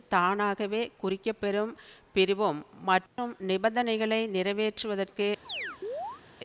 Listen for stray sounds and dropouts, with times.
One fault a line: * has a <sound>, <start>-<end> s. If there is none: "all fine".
* has a dropout, 3.1-3.2 s
* has a chirp, 5.5-6.2 s